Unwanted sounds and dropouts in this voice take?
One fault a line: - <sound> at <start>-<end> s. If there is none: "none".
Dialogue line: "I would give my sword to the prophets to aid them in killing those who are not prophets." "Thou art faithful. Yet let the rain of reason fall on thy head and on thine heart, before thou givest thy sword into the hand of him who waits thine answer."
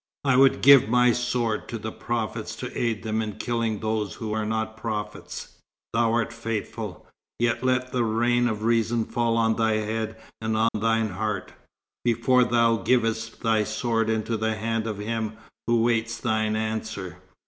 - dropout at 10.7-10.7 s